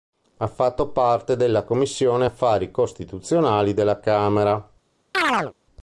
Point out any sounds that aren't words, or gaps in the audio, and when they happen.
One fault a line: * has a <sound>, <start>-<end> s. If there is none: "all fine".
* has a chirp, 5.1-5.5 s